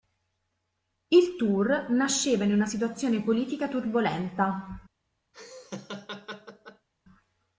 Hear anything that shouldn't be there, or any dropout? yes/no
yes